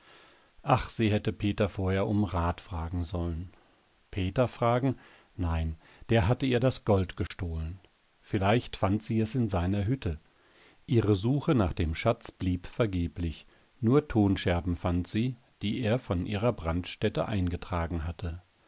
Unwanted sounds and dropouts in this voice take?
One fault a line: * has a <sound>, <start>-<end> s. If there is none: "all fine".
* has a dropout, 7.3-7.3 s